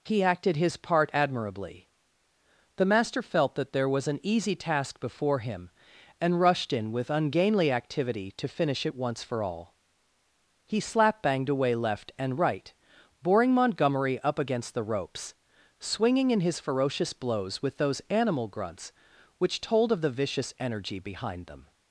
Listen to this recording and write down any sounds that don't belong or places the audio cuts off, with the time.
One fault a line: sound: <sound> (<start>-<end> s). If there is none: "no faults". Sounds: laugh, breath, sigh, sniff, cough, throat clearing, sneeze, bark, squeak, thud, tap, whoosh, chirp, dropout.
no faults